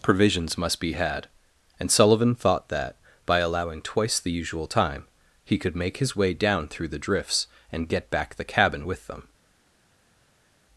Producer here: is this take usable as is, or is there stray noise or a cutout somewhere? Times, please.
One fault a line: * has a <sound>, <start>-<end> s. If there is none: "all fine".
all fine